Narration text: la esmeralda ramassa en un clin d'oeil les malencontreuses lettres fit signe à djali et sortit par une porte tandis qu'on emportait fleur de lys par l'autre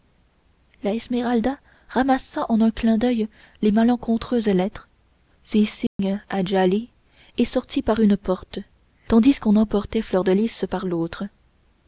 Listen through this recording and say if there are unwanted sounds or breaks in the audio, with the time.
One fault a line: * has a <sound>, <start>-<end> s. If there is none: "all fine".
* has a dropout, 5.9-6.0 s